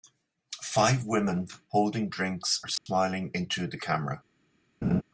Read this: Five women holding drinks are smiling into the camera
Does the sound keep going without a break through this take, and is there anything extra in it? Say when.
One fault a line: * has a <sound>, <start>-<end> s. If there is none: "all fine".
* has a dropout, 2.8-2.9 s
* has a laugh, 4.8-5.0 s